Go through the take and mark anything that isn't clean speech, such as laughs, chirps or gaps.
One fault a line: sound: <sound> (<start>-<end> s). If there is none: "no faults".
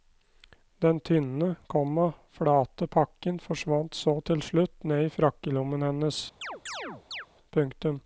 sound: chirp (6.4-7.3 s)